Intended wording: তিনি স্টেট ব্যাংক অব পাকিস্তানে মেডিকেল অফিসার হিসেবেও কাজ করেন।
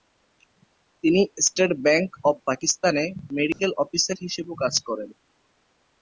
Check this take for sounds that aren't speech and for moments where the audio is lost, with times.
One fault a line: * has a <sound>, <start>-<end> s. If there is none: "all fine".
* has a dropout, 3.5-3.6 s